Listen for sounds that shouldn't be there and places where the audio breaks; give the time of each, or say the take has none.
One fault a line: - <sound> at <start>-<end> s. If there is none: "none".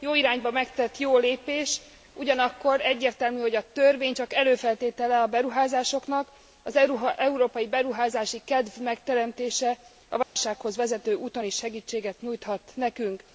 - dropout at 10.2-10.4 s